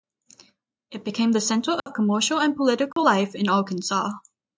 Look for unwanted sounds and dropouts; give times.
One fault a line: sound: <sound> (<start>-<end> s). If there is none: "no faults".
sound: dropout (1.8-1.9 s)
sound: dropout (2.9-3.0 s)